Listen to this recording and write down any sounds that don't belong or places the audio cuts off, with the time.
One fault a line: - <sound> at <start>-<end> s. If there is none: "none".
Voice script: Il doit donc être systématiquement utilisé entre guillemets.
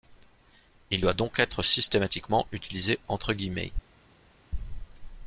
none